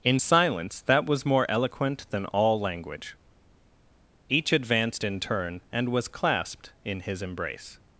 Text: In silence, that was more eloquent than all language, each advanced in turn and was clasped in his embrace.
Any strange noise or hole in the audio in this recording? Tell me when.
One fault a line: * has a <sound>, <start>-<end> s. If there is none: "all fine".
all fine